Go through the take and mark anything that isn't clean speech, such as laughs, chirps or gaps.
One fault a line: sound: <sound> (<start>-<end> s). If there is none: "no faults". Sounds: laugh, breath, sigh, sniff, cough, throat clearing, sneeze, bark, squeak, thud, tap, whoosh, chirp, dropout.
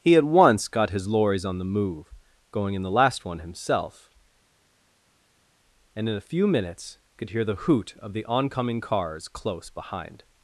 no faults